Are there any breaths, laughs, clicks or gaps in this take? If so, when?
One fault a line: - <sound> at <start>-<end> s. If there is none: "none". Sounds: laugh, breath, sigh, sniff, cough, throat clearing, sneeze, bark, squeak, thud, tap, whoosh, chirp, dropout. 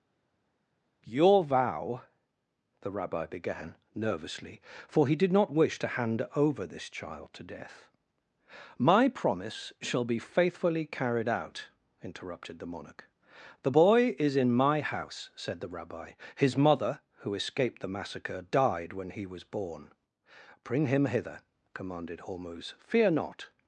none